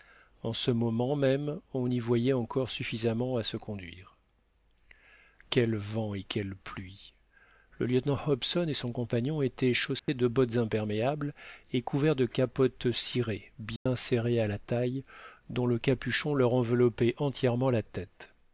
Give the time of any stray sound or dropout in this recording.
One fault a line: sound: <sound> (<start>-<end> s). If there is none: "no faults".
sound: dropout (10.0-10.1 s)
sound: dropout (13.8-13.9 s)